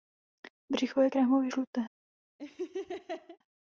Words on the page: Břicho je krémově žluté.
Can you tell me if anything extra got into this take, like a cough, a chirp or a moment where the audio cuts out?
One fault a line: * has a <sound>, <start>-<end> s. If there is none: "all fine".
* has a laugh, 2.4-3.4 s